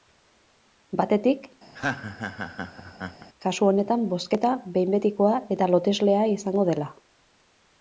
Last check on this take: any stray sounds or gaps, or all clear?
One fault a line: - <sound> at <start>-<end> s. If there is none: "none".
- laugh at 1.7-3.3 s